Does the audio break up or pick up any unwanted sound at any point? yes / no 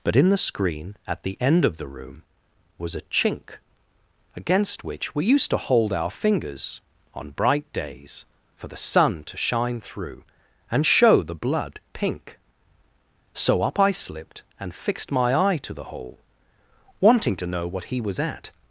no